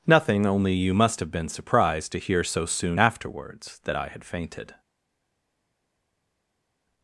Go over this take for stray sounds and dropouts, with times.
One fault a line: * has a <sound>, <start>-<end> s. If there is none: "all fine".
all fine